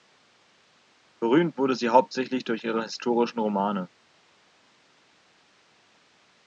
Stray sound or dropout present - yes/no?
no